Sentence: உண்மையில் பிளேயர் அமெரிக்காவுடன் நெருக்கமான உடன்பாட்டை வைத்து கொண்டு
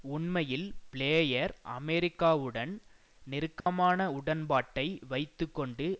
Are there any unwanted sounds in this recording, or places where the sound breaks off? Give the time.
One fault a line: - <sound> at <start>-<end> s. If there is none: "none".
- dropout at 3.6-3.7 s